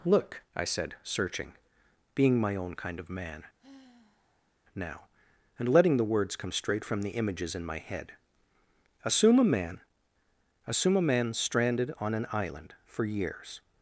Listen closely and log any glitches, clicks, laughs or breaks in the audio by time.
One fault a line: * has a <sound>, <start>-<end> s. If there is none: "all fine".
* has a sigh, 3.6-4.5 s